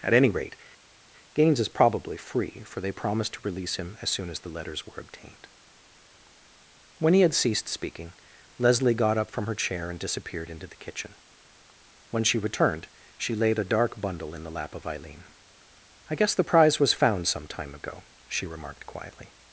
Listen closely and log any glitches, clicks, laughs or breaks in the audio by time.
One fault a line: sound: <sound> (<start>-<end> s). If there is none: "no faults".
no faults